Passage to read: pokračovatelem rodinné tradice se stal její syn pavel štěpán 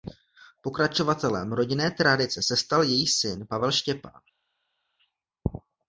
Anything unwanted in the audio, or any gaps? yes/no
no